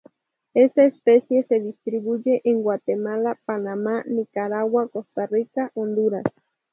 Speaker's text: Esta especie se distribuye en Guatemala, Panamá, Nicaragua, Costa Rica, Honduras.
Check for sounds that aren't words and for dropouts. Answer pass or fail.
pass